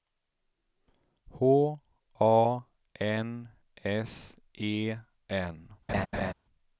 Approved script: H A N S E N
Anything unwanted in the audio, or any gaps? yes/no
yes